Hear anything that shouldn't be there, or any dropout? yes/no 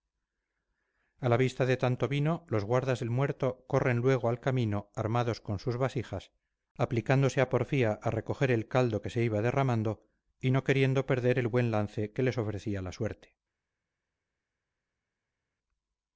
no